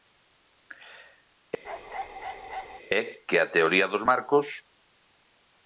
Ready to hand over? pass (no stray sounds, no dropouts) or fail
fail